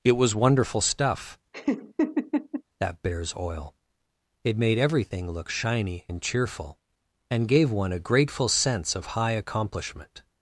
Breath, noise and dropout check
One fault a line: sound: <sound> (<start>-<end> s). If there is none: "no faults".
sound: laugh (1.5-2.6 s)